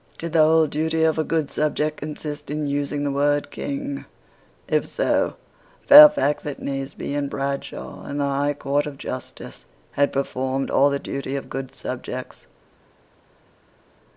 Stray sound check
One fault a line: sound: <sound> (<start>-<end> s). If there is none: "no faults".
no faults